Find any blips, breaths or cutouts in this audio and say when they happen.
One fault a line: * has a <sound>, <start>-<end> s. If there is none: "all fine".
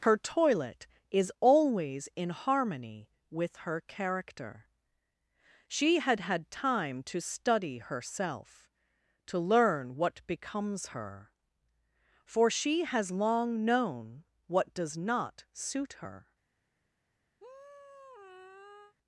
* has a sigh, 17.4-18.9 s